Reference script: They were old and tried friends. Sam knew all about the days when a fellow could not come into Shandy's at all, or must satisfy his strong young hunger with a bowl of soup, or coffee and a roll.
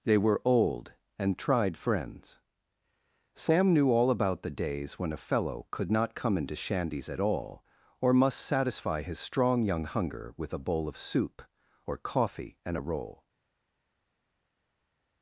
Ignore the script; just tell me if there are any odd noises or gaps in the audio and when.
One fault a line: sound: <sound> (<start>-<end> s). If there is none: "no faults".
no faults